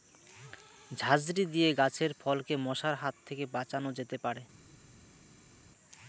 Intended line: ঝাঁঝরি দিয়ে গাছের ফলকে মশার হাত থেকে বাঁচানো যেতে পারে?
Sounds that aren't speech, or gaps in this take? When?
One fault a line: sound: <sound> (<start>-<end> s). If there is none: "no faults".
no faults